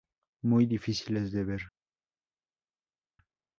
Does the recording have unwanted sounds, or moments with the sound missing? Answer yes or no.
no